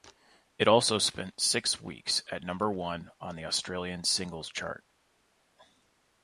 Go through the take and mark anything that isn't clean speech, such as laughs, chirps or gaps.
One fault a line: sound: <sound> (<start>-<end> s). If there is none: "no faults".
no faults